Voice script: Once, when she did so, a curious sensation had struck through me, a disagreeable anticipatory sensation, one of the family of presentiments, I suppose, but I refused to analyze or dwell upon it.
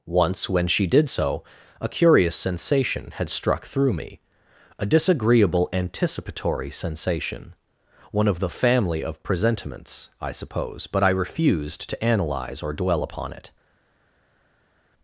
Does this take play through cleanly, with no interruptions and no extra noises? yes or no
yes